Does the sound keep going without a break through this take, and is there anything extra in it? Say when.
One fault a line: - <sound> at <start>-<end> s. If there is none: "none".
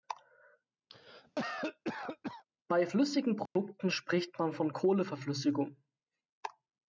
- cough at 0.9-2.4 s
- dropout at 3.5-3.6 s